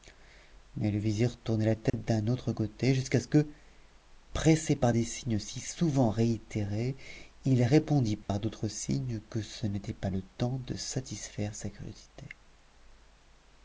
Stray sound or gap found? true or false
true